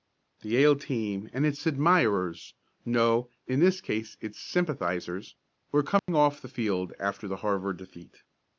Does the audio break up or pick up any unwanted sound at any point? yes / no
yes